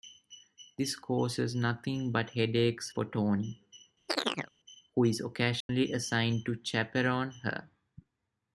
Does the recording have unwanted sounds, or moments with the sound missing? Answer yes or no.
yes